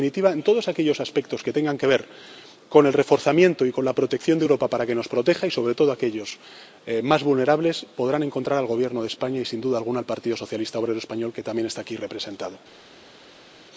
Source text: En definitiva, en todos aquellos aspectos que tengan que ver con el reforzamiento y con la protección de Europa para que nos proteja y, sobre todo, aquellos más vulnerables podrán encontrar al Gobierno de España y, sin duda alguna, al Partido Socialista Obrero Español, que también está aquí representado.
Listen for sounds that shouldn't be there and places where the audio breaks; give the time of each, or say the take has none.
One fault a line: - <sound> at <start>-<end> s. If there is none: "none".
none